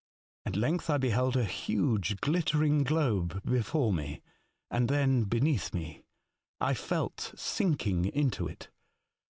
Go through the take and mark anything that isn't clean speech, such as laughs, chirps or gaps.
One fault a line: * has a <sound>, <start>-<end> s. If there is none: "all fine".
all fine